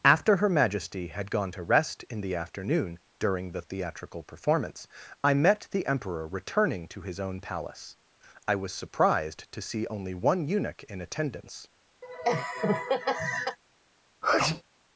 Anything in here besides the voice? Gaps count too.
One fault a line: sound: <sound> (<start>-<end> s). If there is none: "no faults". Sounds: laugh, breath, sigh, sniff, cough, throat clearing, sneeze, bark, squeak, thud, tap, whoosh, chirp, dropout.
sound: laugh (12.0-13.6 s)
sound: sneeze (14.2-14.6 s)